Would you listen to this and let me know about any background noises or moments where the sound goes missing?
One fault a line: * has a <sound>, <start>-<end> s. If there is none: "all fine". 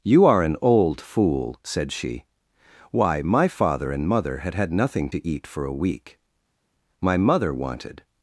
all fine